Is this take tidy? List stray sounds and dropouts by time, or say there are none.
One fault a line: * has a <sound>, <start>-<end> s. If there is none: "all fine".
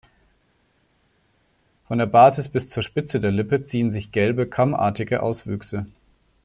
all fine